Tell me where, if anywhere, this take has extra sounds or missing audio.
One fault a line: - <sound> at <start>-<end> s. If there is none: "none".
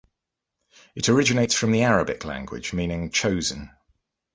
none